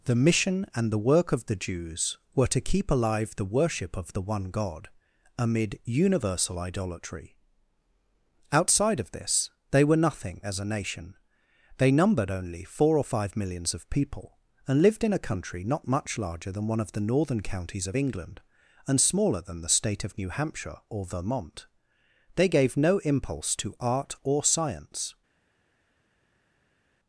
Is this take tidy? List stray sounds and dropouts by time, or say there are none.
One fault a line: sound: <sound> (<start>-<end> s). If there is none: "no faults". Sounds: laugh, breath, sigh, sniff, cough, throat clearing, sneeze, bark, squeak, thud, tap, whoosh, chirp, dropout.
no faults